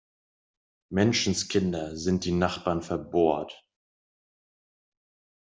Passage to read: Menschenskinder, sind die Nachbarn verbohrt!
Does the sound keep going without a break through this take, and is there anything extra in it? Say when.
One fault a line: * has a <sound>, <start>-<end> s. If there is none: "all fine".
all fine